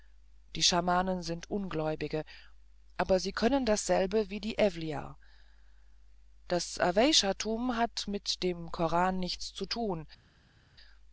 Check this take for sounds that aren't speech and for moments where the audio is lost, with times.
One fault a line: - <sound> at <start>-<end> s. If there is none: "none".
none